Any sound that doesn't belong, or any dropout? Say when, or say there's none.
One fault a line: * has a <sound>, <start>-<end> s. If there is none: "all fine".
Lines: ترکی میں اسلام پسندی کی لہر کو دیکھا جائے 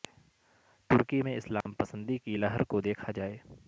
* has a dropout, 1.6-1.7 s